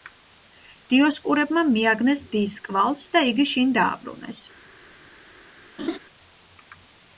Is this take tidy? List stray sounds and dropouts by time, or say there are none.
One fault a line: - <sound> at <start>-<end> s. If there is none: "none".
- laugh at 5.8-6.0 s